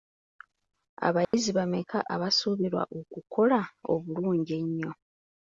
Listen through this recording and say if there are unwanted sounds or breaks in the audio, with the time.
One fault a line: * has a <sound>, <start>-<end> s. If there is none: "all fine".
* has a dropout, 1.2-1.3 s